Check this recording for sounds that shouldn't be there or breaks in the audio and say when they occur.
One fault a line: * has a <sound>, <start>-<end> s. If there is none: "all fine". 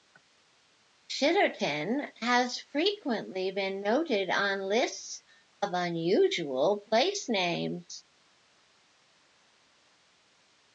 all fine